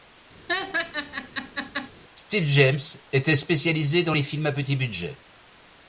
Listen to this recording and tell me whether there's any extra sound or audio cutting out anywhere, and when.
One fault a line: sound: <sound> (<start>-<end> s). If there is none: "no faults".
sound: laugh (0.5-1.9 s)